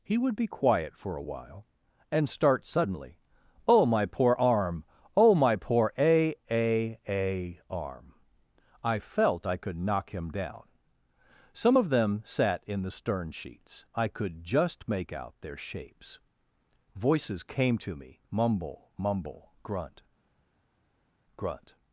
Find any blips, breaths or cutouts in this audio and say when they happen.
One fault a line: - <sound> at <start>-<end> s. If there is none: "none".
none